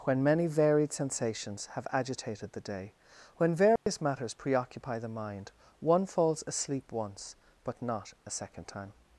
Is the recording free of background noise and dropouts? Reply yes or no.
no